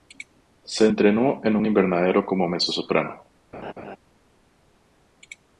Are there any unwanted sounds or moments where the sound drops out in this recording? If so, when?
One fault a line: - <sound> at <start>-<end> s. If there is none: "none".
- laugh at 3.5-4.0 s